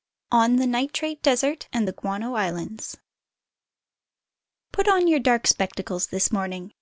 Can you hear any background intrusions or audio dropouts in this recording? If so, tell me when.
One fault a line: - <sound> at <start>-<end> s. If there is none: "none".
none